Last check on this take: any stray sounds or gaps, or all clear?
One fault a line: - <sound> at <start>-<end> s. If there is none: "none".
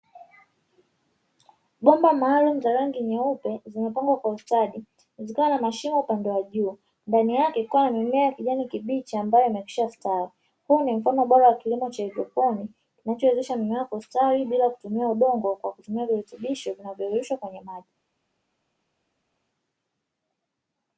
none